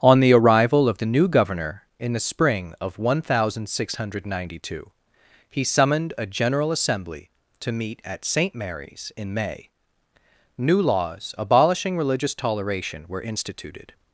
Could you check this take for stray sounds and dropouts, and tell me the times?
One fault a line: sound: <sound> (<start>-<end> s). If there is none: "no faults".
no faults